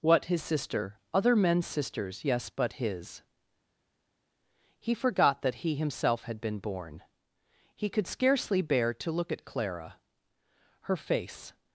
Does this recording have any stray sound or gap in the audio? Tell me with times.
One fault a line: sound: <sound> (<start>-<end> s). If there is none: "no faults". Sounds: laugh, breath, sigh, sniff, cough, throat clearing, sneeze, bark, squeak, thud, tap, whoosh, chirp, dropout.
no faults